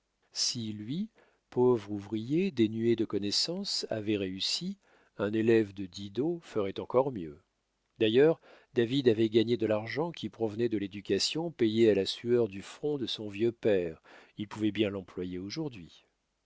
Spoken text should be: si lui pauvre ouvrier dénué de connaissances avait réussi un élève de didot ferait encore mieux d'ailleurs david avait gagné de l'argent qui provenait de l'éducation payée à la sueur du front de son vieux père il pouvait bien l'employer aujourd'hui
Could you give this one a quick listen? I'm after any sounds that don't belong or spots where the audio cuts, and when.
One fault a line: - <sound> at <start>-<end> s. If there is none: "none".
none